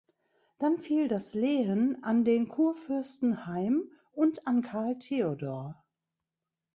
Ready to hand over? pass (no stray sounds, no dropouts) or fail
pass